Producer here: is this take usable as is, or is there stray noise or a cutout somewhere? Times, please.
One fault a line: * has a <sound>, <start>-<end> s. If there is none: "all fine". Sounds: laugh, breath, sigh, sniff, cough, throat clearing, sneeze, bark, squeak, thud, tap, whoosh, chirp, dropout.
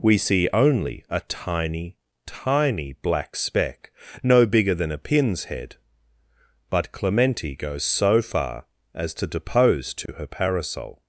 * has a dropout, 10.1-10.1 s